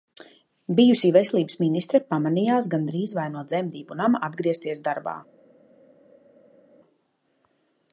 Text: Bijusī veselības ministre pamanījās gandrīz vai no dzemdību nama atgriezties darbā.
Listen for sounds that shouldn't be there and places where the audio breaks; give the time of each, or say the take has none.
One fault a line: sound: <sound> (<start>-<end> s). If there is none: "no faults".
no faults